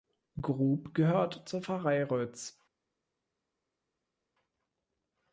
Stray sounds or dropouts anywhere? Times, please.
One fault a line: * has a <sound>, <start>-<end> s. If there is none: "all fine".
all fine